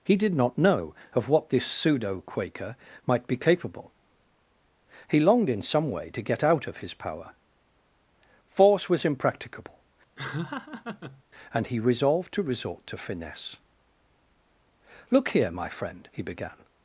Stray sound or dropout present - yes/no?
yes